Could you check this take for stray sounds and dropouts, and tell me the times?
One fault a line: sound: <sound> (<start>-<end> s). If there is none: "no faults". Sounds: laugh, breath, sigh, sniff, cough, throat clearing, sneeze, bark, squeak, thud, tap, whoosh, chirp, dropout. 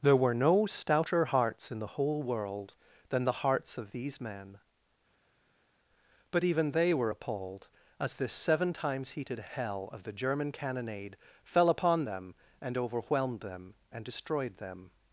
no faults